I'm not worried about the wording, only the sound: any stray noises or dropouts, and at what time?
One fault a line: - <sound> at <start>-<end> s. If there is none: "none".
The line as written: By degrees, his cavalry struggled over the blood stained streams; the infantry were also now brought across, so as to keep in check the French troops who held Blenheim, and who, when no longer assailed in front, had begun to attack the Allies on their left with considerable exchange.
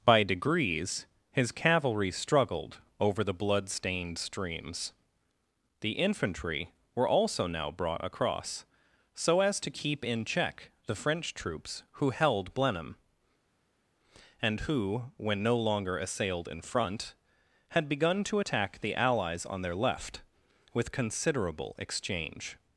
none